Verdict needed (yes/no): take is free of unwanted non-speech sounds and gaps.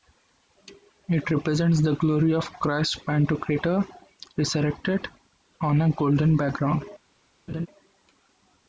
no